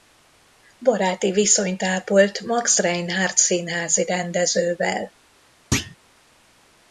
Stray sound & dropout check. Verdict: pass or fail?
fail